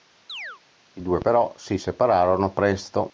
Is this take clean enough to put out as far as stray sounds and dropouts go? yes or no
no